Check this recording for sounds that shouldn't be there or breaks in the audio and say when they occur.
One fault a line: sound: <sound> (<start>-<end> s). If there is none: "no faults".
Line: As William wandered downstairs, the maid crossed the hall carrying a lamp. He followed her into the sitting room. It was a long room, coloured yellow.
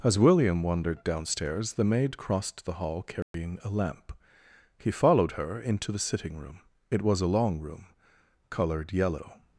sound: dropout (3.2-3.3 s)